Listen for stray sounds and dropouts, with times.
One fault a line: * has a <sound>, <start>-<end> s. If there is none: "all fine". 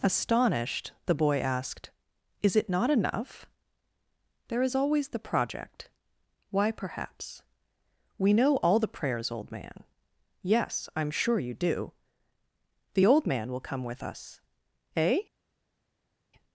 all fine